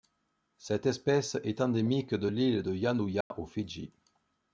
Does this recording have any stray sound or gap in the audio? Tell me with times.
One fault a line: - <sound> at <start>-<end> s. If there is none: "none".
- dropout at 3.2-3.3 s